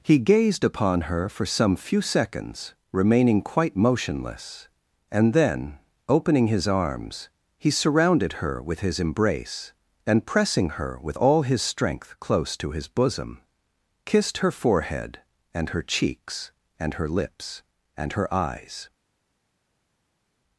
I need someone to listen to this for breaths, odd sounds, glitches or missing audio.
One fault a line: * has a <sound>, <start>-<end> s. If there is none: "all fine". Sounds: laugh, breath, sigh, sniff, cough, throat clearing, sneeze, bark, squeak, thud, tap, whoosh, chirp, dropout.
all fine